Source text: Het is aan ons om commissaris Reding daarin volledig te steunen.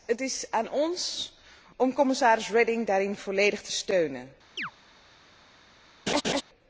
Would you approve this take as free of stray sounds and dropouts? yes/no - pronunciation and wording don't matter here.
no